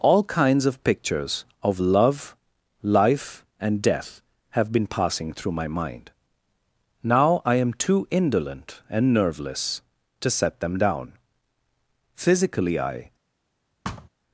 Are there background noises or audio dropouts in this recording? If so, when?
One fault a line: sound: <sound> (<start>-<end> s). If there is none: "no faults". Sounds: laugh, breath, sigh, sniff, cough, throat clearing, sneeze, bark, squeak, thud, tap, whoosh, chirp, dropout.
sound: thud (13.8-14.1 s)